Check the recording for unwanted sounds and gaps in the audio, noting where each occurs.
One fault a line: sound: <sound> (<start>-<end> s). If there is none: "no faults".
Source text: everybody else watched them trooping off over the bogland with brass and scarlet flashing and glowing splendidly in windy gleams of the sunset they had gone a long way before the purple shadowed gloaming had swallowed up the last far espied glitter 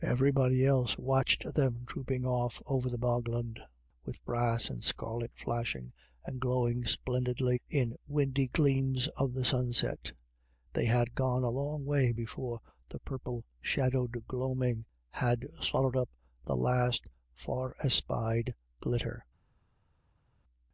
no faults